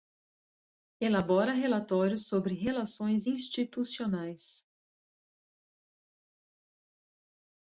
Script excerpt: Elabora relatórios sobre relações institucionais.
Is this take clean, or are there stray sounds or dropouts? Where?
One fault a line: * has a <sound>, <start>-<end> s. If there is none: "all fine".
all fine